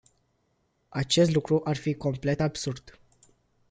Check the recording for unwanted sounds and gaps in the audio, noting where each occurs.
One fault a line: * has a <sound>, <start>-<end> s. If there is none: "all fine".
all fine